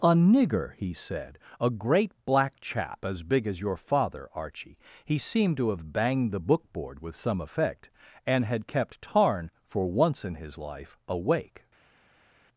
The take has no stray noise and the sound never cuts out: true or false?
true